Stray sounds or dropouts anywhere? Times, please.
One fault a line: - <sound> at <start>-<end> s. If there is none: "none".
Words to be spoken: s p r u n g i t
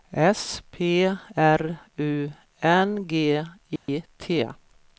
- dropout at 3.8-3.9 s